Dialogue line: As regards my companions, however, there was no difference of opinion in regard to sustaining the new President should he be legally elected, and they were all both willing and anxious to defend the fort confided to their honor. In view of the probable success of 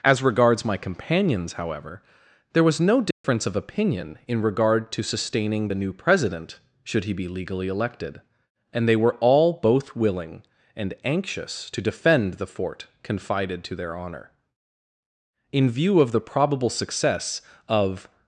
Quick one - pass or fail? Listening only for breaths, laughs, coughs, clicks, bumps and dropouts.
fail